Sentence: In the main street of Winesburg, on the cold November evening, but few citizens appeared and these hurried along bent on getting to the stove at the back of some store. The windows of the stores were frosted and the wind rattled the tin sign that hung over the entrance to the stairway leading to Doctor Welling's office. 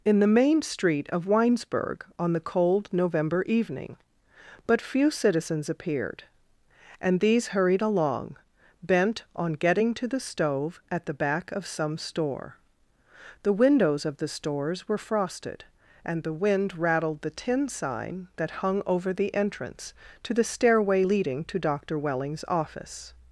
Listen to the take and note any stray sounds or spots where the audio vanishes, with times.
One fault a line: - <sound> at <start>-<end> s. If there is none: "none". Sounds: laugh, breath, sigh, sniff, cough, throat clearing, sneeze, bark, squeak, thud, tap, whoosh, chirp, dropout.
none